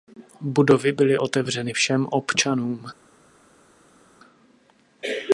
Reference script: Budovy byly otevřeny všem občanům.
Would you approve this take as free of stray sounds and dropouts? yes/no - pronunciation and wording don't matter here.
yes